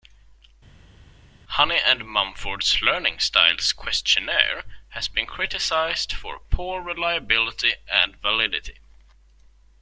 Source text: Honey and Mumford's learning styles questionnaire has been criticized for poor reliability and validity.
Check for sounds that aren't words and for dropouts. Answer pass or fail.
pass